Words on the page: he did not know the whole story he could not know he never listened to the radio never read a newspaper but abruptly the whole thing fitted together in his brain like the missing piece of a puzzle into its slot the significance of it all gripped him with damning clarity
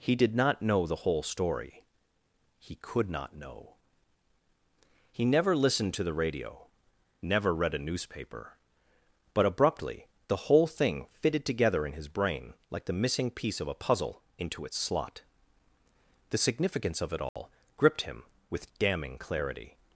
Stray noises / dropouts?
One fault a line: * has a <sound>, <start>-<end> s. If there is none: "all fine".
* has a dropout, 17.3-17.4 s